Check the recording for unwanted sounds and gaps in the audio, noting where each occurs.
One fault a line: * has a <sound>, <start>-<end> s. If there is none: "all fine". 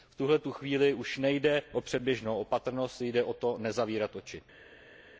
all fine